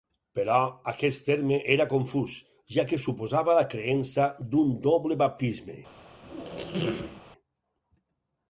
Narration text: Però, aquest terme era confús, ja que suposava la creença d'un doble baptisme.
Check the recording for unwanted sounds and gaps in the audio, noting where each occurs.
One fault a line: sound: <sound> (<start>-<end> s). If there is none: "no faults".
sound: squeak (6.2-7.2 s)